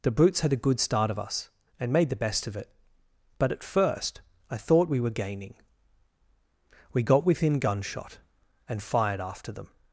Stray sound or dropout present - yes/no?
no